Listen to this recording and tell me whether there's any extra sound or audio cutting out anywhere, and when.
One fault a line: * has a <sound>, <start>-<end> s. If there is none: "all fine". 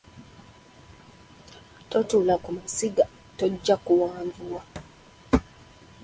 * has a thud, 4.8-5.0 s